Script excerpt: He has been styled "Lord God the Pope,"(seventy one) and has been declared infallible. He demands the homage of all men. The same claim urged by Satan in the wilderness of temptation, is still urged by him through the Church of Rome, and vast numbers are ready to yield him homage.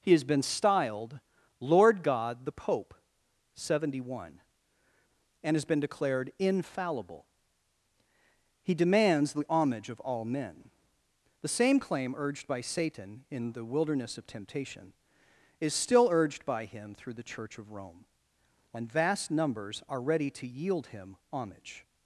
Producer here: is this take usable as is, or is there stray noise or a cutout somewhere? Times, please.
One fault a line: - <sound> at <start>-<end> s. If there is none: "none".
none